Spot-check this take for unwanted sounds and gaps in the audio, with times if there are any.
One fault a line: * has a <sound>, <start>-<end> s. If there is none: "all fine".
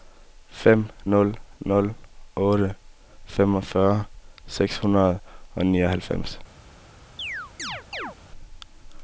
* has a chirp, 7.2-8.2 s